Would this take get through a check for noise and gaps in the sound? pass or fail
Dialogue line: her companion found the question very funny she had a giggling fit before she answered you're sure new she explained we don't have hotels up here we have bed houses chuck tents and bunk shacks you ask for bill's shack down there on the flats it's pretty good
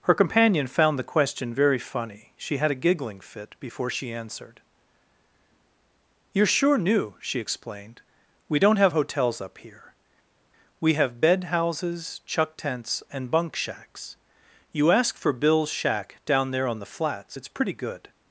pass